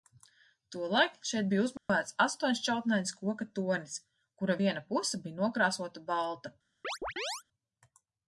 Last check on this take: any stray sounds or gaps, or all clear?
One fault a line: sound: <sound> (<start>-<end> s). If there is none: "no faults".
sound: dropout (1.8-1.9 s)
sound: chirp (6.8-7.4 s)